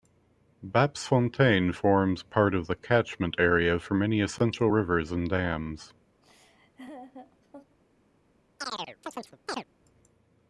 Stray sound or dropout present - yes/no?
yes